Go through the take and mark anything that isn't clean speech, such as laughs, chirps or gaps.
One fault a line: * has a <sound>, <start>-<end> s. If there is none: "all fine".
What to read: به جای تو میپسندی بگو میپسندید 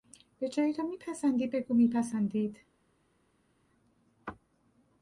all fine